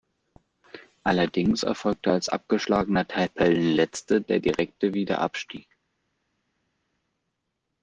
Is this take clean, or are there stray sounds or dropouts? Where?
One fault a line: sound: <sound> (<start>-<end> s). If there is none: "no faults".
no faults